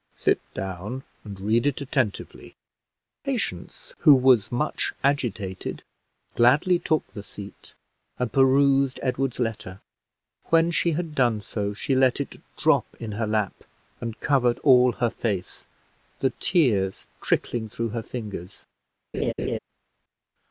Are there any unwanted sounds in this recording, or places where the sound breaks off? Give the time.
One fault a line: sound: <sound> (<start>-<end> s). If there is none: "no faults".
sound: laugh (19.1-19.6 s)